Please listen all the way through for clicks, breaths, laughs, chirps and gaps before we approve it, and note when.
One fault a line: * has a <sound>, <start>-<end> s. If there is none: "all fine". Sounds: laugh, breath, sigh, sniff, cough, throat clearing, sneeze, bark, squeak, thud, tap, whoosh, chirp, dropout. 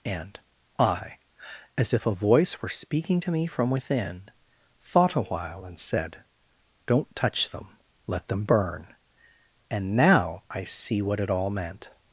all fine